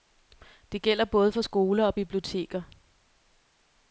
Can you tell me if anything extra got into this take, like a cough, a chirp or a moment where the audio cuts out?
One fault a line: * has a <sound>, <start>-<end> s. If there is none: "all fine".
all fine